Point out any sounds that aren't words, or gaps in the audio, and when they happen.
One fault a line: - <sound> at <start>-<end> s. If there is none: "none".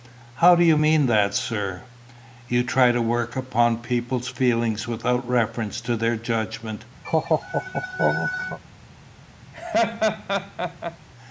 - laugh at 7.0-8.6 s
- laugh at 9.5-11.0 s